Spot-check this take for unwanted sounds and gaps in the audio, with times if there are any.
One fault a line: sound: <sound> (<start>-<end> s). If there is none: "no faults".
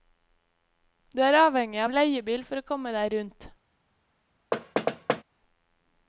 sound: thud (4.5-5.2 s)